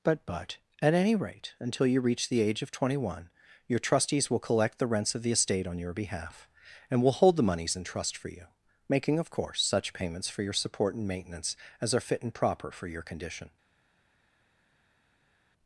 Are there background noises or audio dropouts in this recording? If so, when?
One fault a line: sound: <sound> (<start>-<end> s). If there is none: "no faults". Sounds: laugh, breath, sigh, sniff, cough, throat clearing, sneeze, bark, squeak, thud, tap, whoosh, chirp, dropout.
no faults